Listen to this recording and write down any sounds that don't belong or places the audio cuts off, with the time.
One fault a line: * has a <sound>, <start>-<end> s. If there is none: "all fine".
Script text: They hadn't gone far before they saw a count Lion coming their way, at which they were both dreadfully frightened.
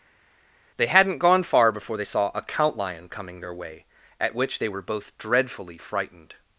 all fine